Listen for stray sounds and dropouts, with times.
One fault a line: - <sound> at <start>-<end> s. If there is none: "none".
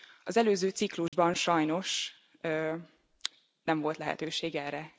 - dropout at 1.1-1.1 s